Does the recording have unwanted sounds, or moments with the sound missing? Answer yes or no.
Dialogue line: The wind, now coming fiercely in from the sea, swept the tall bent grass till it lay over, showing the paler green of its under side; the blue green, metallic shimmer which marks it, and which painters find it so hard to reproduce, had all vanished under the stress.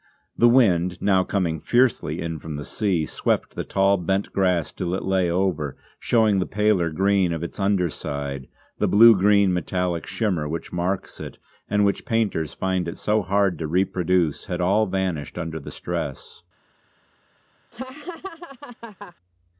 yes